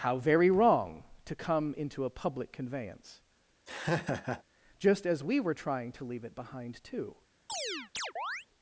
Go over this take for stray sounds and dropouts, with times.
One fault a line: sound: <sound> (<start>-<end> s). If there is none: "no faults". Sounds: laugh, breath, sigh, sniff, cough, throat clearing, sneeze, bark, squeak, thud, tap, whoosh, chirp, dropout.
sound: laugh (3.7-4.4 s)
sound: chirp (7.5-8.5 s)